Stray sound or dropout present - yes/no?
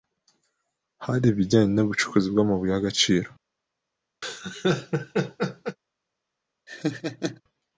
yes